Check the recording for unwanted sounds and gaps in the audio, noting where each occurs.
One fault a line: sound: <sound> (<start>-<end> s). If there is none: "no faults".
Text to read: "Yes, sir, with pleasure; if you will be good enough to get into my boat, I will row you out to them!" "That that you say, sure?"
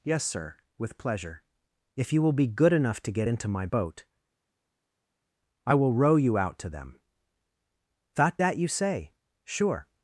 no faults